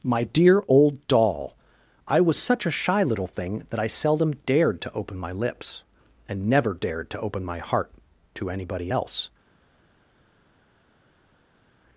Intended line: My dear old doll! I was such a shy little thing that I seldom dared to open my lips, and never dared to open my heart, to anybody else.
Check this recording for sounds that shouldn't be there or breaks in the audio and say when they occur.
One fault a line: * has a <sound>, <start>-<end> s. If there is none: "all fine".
all fine